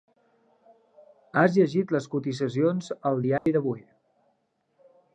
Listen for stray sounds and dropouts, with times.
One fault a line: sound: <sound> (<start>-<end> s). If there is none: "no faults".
sound: dropout (3.4-3.5 s)